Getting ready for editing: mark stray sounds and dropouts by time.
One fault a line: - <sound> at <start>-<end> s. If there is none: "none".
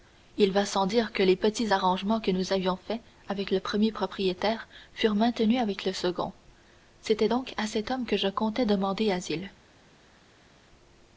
none